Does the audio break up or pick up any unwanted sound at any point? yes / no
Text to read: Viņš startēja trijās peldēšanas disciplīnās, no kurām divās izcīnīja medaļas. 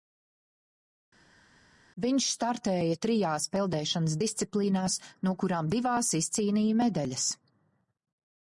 no